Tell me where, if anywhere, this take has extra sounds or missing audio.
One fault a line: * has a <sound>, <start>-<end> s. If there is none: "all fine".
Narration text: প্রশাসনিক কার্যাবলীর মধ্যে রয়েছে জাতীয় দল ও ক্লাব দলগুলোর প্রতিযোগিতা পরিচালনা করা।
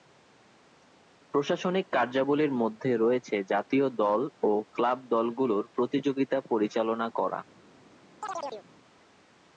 * has a chirp, 8.2-8.7 s